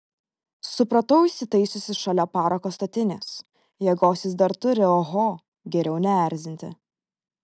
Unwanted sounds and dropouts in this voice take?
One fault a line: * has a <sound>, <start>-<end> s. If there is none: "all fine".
all fine